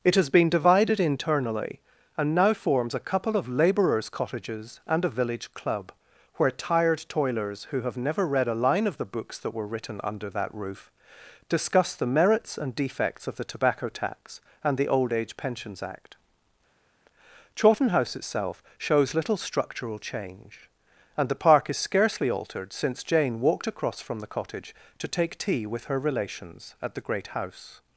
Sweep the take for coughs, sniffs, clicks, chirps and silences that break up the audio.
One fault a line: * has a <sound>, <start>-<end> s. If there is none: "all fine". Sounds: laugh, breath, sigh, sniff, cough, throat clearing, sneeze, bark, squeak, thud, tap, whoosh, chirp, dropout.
all fine